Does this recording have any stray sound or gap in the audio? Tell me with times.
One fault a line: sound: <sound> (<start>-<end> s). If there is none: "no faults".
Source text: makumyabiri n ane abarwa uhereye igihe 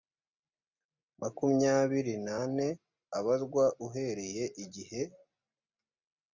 no faults